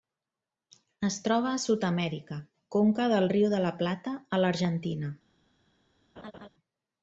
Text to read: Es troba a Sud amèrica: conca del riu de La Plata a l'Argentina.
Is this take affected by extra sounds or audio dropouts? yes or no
yes